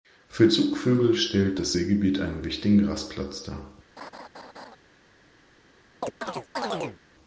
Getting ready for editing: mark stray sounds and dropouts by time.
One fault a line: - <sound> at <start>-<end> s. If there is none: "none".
- laugh at 4.0-4.8 s
- chirp at 6.0-7.0 s